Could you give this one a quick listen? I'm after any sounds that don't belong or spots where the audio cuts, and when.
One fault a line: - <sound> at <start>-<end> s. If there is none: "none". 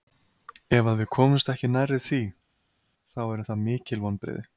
none